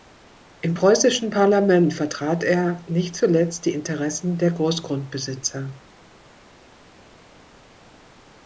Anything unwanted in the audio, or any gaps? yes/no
no